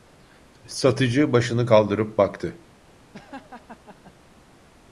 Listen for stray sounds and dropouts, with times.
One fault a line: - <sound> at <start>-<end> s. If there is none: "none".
- laugh at 3.1-4.1 s